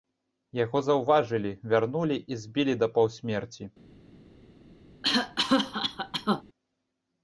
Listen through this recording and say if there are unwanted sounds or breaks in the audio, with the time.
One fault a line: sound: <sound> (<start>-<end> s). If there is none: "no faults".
sound: cough (5.0-6.4 s)